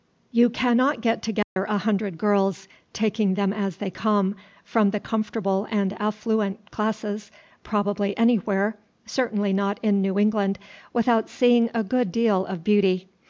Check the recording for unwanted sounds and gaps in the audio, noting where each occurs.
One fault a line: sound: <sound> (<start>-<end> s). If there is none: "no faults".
sound: dropout (1.4-1.6 s)